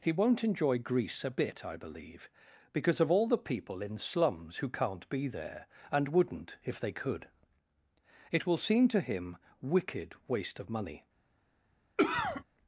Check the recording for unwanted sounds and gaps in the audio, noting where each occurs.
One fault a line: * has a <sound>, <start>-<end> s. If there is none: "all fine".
* has a cough, 12.0-12.4 s